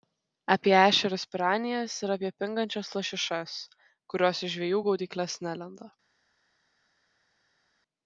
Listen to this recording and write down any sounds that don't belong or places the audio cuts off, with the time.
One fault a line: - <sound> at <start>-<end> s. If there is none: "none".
none